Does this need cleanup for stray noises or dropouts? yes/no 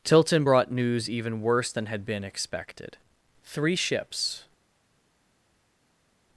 no